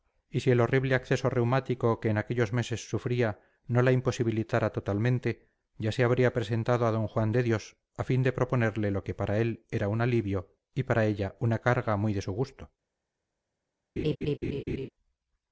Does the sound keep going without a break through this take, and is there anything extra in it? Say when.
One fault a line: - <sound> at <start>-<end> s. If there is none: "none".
- laugh at 14.0-14.9 s